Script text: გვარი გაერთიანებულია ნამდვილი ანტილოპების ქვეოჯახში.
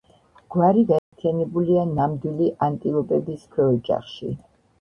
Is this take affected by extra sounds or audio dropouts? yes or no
yes